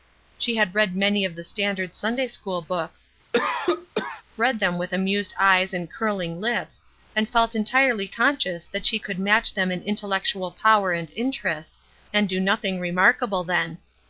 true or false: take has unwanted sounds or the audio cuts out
true